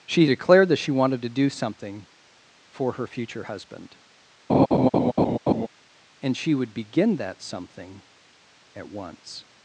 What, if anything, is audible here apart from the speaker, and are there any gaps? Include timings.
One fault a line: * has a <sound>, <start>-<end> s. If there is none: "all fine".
* has a laugh, 4.5-5.7 s